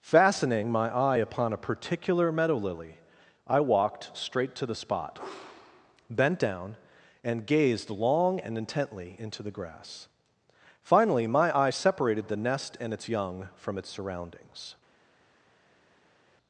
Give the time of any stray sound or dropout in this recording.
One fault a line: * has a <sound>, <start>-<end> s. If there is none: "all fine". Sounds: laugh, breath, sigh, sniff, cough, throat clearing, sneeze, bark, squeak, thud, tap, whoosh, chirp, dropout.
all fine